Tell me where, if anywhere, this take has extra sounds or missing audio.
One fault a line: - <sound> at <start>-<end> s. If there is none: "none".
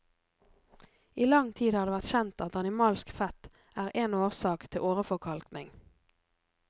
none